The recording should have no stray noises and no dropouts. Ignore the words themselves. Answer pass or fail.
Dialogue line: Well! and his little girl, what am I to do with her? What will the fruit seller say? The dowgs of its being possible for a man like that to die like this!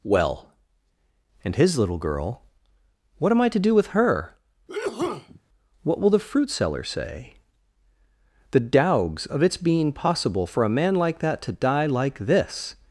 fail